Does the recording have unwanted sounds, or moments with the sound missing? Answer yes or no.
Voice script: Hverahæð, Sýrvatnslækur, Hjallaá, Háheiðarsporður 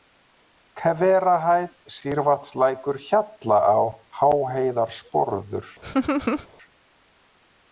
yes